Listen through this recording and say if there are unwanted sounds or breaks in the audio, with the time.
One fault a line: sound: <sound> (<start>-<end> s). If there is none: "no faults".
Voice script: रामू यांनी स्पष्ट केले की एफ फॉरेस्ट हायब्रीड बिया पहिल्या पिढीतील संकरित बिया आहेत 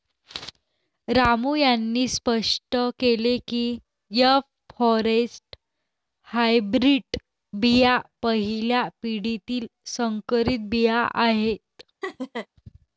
sound: laugh (12.0-12.5 s)